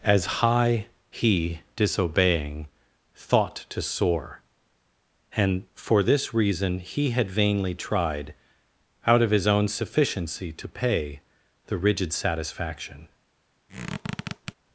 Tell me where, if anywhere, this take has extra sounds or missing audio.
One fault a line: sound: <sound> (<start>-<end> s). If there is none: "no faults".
sound: squeak (13.7-14.5 s)